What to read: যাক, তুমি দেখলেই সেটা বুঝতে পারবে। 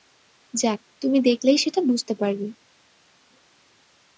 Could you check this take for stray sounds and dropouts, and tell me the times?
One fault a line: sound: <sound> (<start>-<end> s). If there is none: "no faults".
no faults